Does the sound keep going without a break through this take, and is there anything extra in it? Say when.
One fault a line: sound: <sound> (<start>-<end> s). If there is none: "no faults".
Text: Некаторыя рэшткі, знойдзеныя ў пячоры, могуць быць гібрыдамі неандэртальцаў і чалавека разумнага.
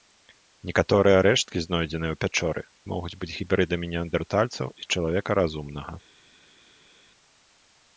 no faults